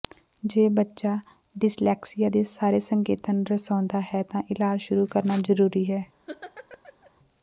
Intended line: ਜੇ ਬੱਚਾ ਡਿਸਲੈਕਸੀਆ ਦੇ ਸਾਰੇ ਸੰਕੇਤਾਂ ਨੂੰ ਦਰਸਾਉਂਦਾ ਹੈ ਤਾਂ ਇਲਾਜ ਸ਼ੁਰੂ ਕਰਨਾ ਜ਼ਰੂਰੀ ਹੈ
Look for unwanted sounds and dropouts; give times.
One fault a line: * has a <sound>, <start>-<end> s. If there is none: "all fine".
* has a laugh, 6.3-7.1 s